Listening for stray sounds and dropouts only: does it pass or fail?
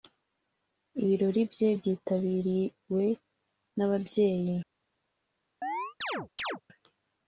fail